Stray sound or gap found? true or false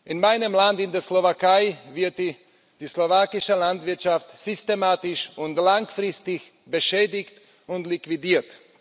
false